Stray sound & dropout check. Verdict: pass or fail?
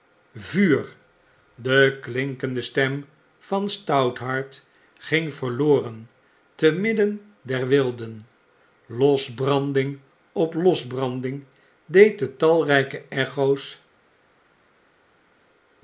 pass